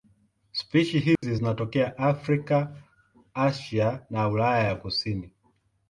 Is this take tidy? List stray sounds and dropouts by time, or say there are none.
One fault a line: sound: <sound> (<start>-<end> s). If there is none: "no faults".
sound: dropout (1.2-1.2 s)